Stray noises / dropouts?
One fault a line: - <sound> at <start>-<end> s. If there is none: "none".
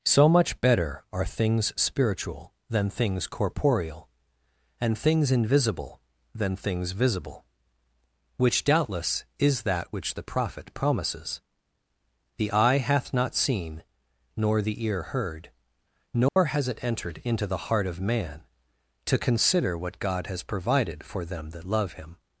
- dropout at 16.3-16.4 s